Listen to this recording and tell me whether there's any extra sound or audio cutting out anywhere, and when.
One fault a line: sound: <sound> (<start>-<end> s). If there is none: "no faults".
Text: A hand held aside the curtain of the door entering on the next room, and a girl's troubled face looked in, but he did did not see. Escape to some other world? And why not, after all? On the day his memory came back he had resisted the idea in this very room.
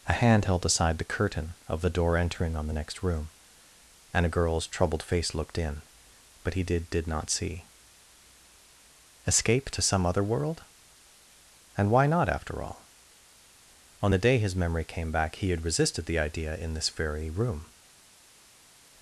no faults